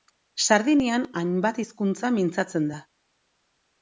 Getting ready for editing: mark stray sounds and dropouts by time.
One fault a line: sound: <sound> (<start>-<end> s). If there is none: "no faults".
no faults